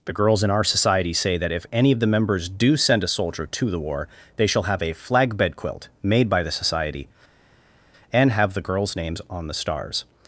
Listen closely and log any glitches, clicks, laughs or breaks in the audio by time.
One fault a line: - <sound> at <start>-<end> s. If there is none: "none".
none